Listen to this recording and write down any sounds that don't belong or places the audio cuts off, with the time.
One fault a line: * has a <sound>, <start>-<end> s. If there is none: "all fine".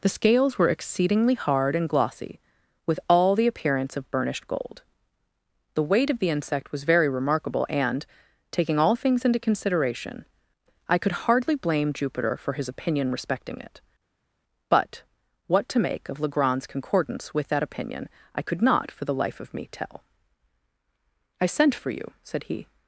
all fine